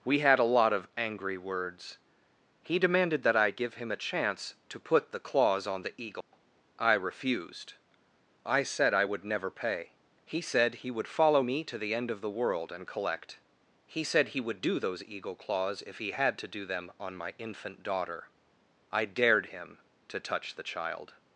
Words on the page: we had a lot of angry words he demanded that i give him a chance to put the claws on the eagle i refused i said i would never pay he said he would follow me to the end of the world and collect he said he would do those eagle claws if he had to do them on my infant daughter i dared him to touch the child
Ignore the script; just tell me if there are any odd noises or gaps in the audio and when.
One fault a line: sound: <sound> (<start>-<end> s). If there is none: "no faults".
sound: dropout (6.2-6.3 s)